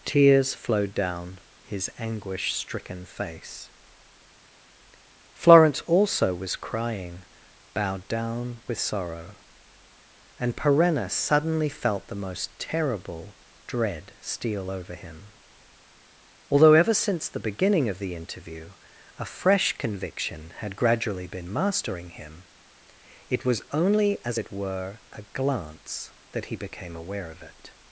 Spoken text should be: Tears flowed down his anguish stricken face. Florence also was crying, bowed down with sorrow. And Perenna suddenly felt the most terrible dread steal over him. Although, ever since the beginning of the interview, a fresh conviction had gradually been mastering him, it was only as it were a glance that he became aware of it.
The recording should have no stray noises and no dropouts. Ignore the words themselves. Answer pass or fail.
pass